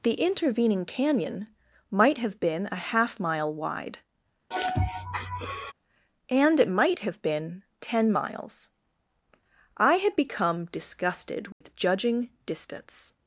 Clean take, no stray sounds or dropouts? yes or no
no